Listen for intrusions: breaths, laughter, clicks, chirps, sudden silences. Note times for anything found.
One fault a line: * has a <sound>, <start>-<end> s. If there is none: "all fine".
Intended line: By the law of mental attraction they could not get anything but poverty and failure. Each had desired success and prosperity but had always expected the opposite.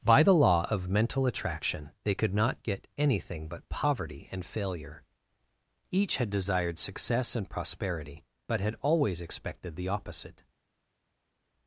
all fine